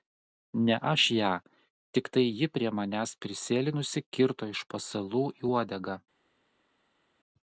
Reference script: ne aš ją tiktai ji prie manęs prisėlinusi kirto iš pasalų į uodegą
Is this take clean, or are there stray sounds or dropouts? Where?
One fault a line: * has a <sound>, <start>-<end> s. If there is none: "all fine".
all fine